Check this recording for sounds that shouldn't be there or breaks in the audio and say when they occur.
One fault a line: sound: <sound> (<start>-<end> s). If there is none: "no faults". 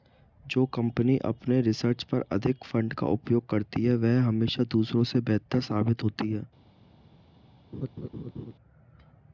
sound: laugh (7.7-8.5 s)